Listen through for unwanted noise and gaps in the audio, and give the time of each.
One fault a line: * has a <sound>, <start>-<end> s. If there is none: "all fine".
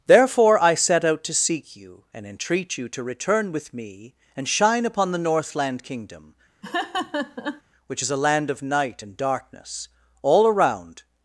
* has a laugh, 6.6-7.6 s